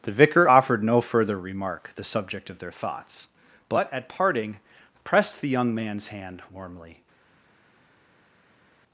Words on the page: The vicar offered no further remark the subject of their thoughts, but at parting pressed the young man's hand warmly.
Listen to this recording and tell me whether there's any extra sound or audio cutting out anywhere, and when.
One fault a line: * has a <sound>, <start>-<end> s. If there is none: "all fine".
all fine